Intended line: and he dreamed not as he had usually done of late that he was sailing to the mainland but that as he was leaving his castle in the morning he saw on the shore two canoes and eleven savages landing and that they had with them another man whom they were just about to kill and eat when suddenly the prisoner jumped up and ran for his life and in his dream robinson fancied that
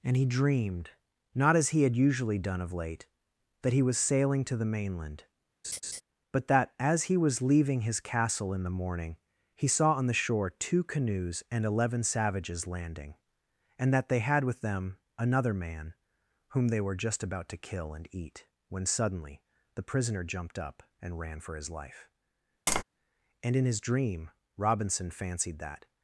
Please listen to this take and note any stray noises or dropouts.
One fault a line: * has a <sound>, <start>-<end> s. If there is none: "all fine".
* has a laugh, 5.6-6.0 s
* has a tap, 22.7-22.8 s